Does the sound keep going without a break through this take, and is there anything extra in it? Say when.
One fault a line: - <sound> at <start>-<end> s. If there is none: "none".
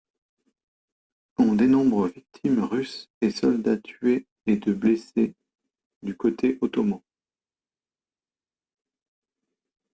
none